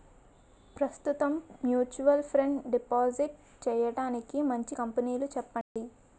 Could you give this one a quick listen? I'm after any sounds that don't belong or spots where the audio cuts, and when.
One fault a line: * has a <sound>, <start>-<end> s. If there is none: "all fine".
* has a dropout, 5.6-5.8 s